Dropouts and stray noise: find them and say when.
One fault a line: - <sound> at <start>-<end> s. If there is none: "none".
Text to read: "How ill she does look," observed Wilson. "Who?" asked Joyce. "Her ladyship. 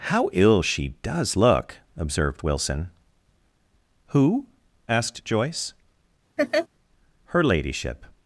- laugh at 6.4-6.7 s